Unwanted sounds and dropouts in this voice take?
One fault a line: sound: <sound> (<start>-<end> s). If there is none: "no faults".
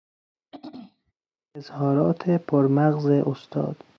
sound: throat clearing (0.5-1.1 s)